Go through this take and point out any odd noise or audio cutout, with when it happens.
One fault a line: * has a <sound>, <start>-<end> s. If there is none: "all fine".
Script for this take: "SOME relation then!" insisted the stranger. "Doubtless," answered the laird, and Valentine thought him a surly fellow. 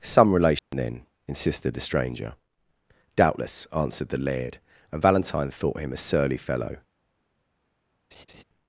* has a dropout, 0.6-0.7 s
* has a laugh, 8.1-8.4 s